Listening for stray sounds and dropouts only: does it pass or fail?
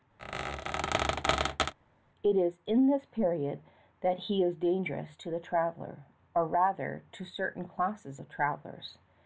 fail